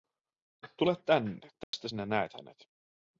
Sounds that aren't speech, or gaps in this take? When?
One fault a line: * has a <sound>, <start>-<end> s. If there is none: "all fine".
* has a dropout, 1.6-1.7 s